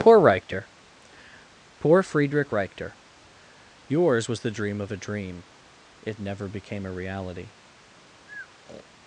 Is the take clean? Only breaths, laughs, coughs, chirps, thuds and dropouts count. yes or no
no